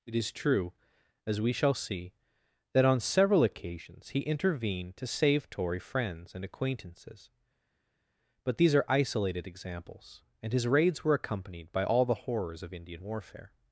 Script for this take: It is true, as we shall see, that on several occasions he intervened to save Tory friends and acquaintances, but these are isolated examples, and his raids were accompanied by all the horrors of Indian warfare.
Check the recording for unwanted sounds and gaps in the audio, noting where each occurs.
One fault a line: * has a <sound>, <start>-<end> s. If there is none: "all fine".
all fine